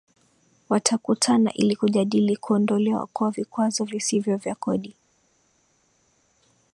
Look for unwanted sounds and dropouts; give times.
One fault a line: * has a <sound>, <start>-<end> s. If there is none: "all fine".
all fine